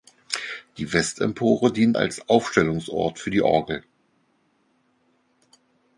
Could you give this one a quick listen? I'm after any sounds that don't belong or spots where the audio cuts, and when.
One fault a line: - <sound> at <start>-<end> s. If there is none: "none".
none